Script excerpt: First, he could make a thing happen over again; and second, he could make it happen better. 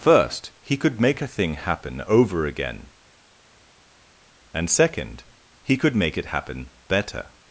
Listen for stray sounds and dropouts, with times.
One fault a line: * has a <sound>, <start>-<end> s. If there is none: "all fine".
all fine